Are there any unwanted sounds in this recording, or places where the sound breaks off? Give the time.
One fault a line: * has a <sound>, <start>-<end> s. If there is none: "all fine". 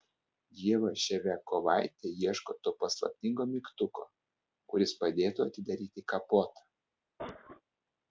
* has a cough, 7.2-7.6 s